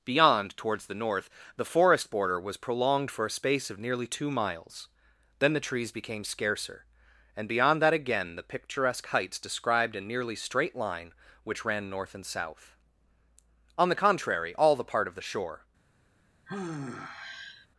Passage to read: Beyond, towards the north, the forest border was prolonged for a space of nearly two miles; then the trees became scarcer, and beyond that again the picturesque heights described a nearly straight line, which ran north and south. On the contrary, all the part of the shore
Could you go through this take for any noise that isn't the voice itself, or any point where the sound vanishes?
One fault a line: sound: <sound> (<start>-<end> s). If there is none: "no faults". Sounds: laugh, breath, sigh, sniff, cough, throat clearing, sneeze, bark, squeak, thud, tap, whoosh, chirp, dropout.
sound: sigh (16.5-17.7 s)